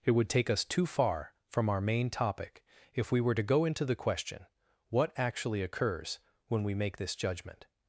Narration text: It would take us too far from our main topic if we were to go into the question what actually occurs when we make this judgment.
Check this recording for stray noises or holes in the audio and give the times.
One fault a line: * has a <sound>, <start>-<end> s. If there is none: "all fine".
all fine